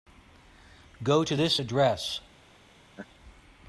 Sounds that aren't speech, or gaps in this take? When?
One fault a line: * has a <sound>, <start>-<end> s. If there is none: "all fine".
* has a laugh, 2.9-3.1 s